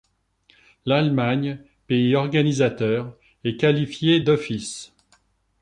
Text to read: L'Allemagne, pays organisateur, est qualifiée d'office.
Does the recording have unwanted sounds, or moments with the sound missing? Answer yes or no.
no